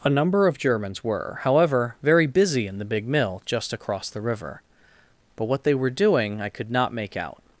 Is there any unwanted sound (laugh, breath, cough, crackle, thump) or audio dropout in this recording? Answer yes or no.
no